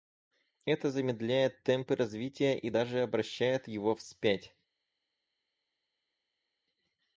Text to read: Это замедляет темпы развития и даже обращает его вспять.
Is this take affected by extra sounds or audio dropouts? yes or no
no